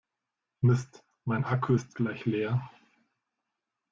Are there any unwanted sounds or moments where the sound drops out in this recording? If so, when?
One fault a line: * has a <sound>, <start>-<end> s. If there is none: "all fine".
all fine